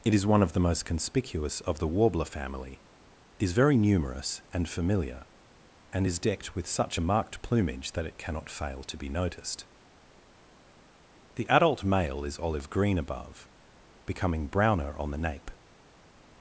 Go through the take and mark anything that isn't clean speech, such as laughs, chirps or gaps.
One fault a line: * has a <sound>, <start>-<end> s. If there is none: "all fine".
all fine